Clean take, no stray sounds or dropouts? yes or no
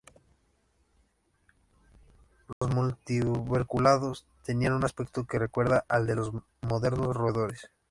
no